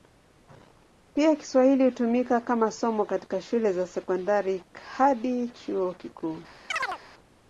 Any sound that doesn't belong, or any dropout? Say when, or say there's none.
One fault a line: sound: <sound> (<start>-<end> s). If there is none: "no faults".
sound: chirp (6.7-7.0 s)